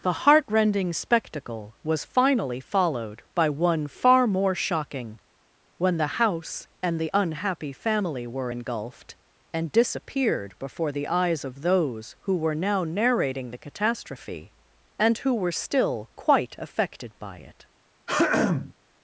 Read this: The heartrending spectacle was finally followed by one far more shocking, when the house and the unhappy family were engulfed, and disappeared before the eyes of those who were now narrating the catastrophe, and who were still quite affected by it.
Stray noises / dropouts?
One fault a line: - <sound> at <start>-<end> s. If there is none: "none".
- throat clearing at 18.1-18.7 s